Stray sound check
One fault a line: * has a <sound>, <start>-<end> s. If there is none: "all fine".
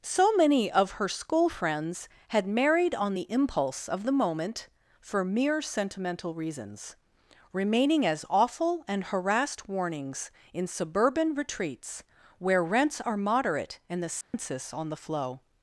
* has a dropout, 14.2-14.3 s